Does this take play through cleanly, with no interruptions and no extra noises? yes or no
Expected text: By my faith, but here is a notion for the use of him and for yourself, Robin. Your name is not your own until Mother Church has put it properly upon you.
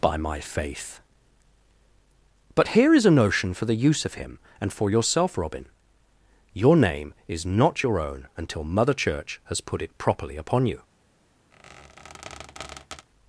no